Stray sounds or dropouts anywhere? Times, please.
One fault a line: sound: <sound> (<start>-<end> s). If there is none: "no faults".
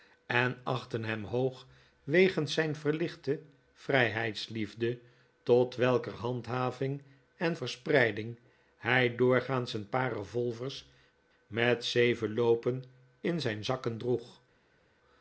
no faults